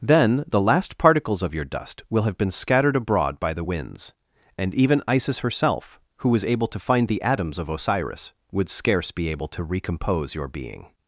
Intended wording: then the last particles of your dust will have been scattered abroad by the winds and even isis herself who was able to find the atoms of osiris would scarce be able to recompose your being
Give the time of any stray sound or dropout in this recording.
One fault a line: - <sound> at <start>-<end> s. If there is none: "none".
none